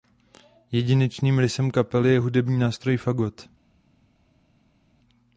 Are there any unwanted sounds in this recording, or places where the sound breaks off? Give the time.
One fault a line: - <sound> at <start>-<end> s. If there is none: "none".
none